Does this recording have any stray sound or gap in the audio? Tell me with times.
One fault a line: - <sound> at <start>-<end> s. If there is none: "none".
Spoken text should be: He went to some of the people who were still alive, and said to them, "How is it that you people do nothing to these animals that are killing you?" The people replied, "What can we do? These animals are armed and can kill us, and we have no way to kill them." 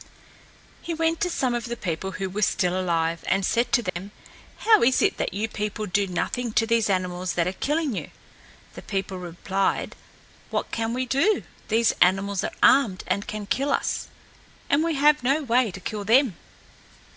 - dropout at 3.9-4.0 s